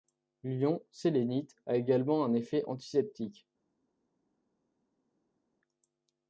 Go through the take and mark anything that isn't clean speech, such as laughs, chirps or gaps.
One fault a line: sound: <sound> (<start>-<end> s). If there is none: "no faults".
no faults